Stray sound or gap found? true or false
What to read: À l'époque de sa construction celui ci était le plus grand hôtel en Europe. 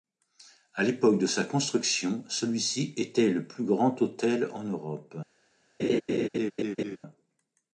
true